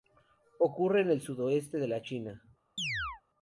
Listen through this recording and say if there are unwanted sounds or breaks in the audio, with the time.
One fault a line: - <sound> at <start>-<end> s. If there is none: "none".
- chirp at 2.8-3.2 s